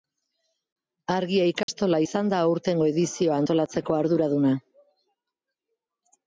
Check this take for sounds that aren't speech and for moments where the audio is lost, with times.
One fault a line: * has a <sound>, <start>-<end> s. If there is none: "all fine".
* has a dropout, 1.6-1.7 s